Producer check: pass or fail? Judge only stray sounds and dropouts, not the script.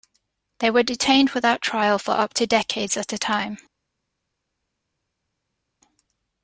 pass